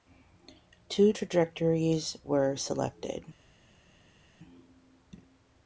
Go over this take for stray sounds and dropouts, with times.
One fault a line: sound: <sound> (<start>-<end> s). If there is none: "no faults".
no faults